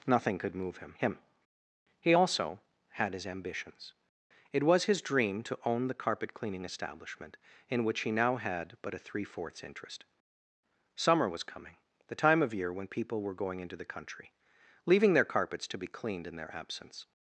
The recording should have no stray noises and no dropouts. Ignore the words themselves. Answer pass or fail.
pass